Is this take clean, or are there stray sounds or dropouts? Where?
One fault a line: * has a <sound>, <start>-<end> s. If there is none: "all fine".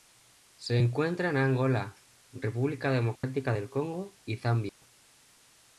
* has a dropout, 3.2-3.2 s
* has a dropout, 4.7-4.8 s